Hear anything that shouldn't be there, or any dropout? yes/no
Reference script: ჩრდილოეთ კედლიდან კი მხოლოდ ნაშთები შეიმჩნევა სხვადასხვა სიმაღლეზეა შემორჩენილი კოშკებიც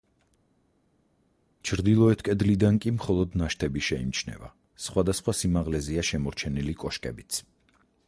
no